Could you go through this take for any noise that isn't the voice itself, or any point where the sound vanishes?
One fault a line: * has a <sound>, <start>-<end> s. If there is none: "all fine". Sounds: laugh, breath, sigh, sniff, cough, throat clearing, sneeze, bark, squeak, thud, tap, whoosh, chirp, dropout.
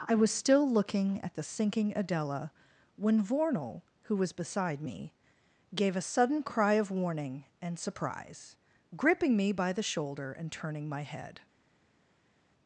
all fine